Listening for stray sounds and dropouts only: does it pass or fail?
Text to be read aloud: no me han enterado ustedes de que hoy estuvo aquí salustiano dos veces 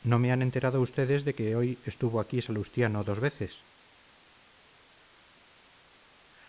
pass